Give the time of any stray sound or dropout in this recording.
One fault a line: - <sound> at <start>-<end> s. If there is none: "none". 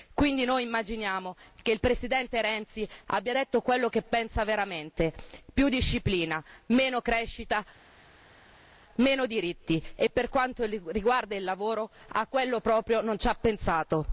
none